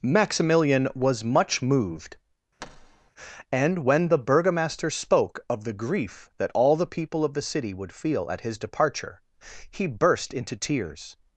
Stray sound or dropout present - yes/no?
yes